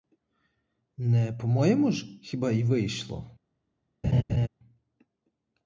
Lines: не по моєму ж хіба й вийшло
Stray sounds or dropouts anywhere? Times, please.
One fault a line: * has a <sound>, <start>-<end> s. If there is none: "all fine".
* has a laugh, 4.0-4.5 s